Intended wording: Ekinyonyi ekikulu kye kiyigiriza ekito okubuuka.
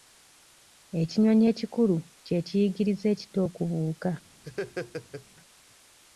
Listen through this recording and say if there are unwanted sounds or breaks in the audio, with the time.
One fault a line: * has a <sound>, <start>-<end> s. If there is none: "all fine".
* has a laugh, 4.4-5.3 s